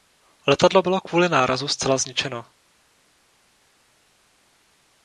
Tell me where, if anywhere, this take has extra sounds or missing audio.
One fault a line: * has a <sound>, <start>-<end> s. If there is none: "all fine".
all fine